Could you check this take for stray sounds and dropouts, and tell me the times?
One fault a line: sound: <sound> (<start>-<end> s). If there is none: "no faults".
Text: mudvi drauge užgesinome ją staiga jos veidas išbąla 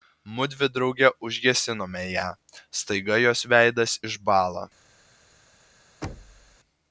sound: thud (6.0-6.6 s)